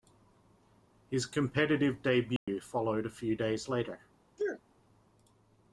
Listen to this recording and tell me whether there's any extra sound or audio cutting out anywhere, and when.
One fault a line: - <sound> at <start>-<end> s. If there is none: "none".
- dropout at 2.4-2.5 s
- sneeze at 4.4-4.6 s